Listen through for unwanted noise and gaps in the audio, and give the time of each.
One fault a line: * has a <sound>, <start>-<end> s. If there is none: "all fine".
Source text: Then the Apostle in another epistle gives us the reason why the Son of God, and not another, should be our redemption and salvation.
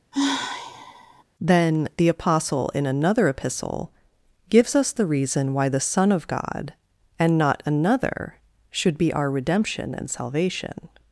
* has a sigh, 0.1-1.2 s